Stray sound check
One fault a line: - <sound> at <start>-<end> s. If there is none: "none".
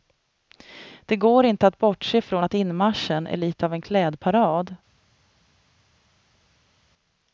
none